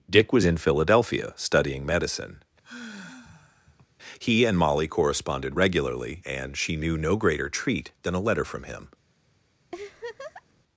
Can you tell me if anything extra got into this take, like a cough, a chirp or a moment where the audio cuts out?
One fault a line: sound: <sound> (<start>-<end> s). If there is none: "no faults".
sound: sigh (2.6-3.9 s)
sound: laugh (9.7-10.6 s)